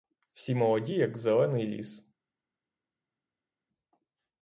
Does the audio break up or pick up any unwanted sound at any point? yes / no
no